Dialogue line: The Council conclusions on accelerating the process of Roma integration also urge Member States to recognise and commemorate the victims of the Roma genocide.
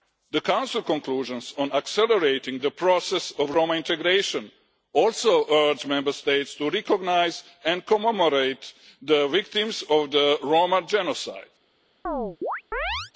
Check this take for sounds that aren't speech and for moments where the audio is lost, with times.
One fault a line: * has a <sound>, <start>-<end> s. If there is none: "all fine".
* has a chirp, 12.1-13.1 s